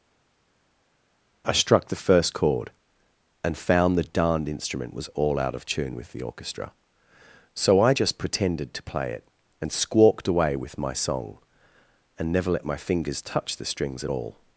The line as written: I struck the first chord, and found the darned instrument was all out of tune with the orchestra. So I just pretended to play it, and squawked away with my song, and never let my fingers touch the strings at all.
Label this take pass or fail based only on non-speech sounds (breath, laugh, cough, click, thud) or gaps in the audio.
pass